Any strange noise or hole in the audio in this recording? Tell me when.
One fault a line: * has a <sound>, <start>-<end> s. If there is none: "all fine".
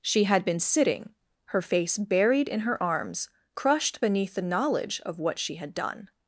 all fine